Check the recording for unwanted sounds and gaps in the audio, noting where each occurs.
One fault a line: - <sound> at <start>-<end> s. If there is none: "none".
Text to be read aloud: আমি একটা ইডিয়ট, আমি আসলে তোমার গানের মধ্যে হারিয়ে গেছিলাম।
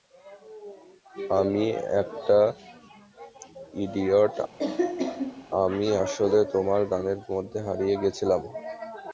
- cough at 4.6-5.5 s